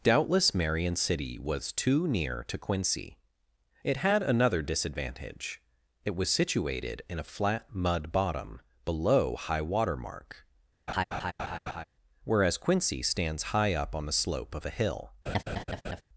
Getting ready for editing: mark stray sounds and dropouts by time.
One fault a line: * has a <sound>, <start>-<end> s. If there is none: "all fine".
* has a laugh, 10.9-11.8 s
* has a laugh, 15.3-16.0 s